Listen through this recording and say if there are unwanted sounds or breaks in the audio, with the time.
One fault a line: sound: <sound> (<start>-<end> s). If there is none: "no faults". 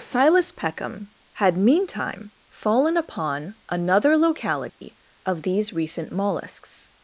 sound: dropout (4.7-4.8 s)